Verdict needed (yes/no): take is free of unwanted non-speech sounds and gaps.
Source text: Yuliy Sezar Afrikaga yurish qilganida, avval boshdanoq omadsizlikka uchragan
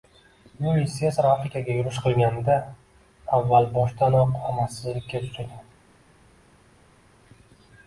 yes